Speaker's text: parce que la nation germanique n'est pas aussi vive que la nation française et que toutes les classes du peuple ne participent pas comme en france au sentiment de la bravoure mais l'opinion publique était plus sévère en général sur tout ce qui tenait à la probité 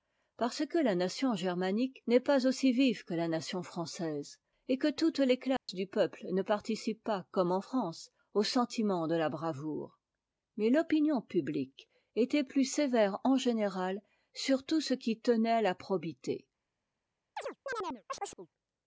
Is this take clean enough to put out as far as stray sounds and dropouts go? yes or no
no